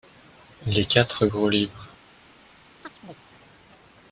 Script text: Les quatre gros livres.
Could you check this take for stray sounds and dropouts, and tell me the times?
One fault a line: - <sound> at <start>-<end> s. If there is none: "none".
- chirp at 2.8-3.2 s